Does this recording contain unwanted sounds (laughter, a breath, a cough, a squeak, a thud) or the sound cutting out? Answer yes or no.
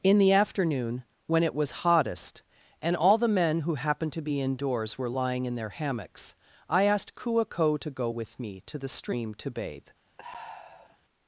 yes